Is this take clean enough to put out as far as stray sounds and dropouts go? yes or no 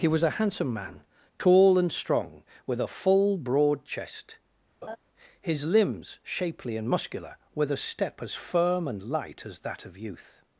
no